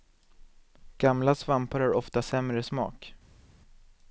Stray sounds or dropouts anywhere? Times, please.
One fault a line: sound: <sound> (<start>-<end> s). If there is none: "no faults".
no faults